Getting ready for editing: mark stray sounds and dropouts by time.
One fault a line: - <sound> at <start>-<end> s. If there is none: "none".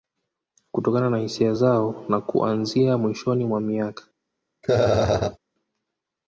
- laugh at 4.6-5.4 s